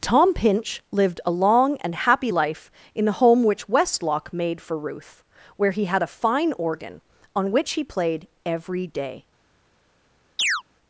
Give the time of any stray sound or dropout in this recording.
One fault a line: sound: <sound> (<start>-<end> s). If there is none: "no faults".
sound: chirp (10.4-10.6 s)